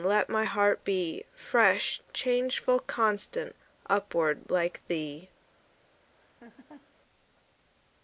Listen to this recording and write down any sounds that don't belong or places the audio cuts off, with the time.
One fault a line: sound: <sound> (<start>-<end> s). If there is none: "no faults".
sound: laugh (6.1-6.9 s)